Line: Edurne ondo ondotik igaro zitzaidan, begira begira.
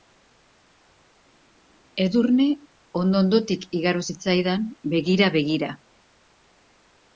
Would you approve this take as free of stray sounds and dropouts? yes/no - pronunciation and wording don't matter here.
yes